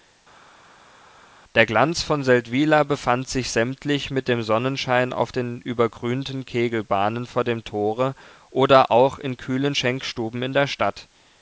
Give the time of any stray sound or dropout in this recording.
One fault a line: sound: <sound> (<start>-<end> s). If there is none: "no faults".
no faults